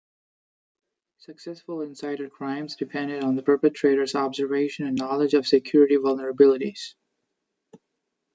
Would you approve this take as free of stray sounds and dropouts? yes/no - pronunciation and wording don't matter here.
yes